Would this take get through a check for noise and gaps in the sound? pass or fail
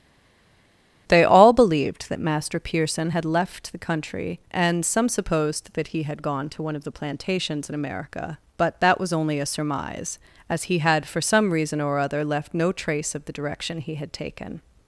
pass